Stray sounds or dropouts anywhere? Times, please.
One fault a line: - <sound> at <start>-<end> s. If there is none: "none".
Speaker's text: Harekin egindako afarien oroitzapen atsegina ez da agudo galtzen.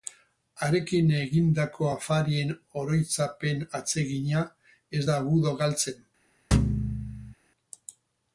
- thud at 6.5-7.3 s